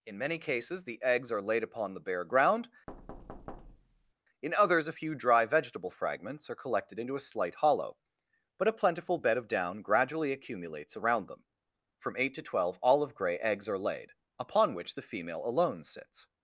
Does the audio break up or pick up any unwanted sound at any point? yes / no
yes